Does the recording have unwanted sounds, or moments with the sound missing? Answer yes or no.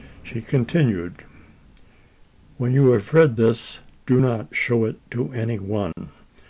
yes